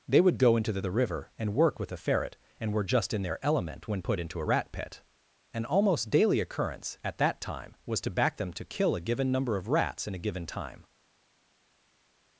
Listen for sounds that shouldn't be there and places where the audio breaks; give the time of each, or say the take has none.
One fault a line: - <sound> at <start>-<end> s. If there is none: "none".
none